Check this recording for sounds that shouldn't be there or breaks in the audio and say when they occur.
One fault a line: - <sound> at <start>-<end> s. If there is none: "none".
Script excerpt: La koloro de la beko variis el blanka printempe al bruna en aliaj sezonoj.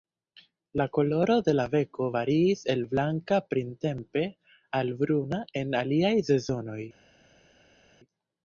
none